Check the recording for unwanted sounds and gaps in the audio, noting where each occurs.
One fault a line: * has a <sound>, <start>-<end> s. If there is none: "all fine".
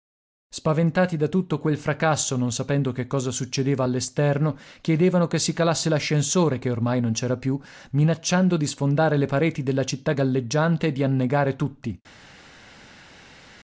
all fine